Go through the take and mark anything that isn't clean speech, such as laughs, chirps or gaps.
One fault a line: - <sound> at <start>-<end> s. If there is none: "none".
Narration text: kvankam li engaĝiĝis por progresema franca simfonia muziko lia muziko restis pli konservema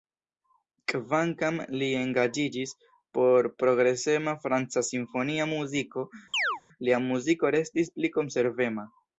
- chirp at 6.3-6.6 s